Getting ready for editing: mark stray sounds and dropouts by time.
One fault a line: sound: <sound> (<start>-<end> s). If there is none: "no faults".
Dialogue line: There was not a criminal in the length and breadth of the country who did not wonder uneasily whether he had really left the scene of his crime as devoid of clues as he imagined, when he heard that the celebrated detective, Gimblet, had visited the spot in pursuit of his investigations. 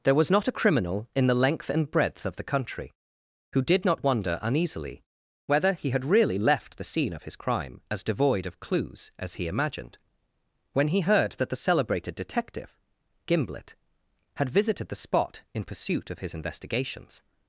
no faults